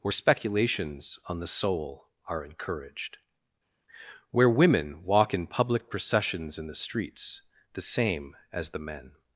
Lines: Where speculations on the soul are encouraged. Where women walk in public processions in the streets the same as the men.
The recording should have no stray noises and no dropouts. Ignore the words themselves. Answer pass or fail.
pass